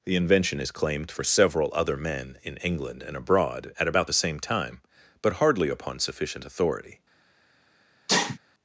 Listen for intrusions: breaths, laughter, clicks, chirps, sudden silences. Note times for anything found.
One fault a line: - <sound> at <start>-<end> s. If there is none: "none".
- sneeze at 8.1-8.4 s